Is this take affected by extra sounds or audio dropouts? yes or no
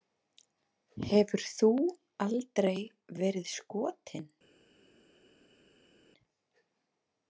no